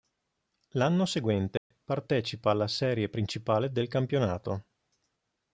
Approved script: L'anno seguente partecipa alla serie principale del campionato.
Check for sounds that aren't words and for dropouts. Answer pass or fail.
fail